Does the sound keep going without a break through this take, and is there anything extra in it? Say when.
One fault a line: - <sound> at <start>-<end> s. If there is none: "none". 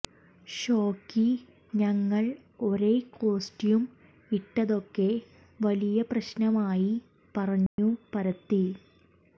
- dropout at 7.7-7.8 s